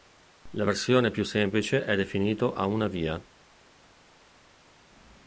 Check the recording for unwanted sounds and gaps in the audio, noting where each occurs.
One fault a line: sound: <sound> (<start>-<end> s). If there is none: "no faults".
no faults